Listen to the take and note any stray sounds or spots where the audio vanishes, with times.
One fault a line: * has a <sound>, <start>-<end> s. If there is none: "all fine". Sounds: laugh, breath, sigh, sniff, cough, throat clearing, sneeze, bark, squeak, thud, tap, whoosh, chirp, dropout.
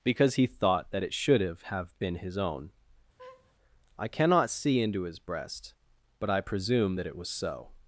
* has a laugh, 3.2-3.5 s